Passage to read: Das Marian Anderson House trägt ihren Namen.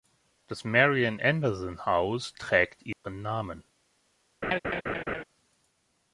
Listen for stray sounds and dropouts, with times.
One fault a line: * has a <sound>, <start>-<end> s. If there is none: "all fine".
* has a dropout, 2.9-3.0 s
* has a laugh, 4.4-5.2 s